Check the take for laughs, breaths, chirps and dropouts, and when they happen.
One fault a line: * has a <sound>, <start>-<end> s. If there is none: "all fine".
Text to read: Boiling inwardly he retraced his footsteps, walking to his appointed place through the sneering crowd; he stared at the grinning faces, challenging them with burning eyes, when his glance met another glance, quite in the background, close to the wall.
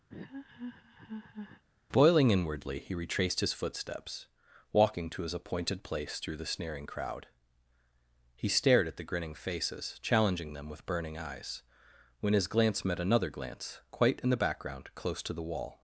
* has a laugh, 0.1-1.6 s